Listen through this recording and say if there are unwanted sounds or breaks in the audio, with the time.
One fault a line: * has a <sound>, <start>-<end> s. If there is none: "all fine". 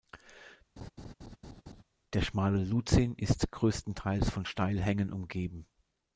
* has a laugh, 0.8-1.8 s